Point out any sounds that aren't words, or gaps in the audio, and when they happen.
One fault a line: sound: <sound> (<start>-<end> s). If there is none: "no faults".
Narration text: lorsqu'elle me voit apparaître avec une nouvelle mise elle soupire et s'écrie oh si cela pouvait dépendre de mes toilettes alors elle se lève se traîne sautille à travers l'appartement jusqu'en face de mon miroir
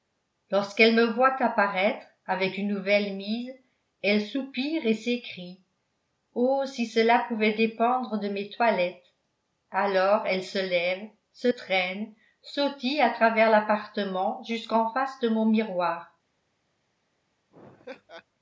sound: laugh (17.5-18.2 s)